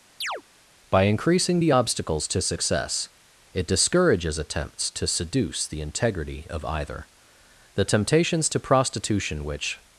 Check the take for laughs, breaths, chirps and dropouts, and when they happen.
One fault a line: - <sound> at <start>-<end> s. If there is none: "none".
- chirp at 0.2-0.4 s